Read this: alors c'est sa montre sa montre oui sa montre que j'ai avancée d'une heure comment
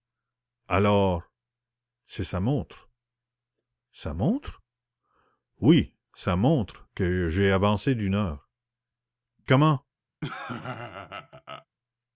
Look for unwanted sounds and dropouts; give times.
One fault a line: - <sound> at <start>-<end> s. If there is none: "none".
- laugh at 10.2-11.7 s